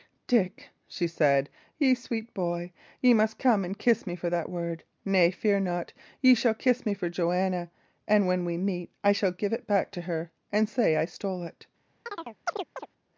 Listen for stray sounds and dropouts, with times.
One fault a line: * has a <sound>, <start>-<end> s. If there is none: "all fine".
* has a chirp, 12.1-12.9 s